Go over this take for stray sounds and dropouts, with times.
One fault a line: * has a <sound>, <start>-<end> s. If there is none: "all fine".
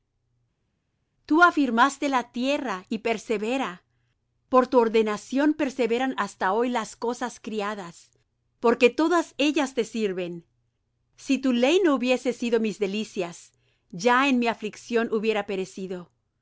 all fine